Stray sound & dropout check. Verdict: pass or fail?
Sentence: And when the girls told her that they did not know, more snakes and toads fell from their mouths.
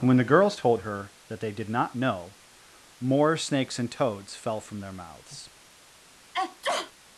fail